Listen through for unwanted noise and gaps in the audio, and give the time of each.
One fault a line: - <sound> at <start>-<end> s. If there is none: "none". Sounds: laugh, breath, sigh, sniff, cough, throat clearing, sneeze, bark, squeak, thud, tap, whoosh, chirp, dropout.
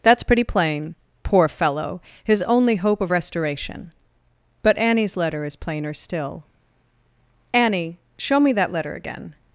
none